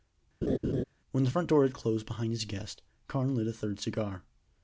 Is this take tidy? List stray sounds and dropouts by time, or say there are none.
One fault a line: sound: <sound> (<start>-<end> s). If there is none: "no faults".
sound: laugh (0.4-0.8 s)